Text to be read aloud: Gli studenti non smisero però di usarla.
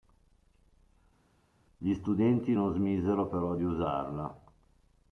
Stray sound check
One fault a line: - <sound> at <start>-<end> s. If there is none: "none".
none